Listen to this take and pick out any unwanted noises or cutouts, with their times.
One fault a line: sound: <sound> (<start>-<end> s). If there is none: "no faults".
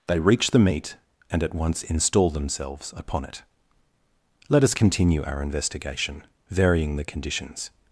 no faults